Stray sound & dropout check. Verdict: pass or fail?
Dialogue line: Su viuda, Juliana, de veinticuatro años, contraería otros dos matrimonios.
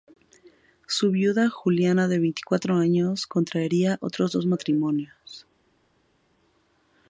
pass